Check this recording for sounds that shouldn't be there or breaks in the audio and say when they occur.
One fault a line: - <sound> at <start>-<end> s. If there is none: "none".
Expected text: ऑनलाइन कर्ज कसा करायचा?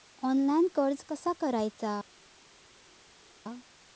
none